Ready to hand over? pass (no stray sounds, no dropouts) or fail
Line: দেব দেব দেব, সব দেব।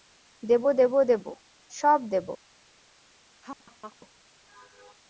fail